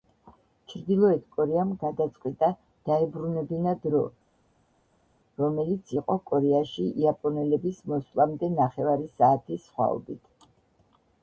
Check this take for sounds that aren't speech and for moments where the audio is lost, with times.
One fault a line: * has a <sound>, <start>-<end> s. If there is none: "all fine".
all fine